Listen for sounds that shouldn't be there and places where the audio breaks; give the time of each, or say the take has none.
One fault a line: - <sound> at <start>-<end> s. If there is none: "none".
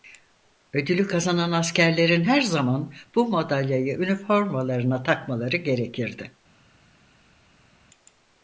none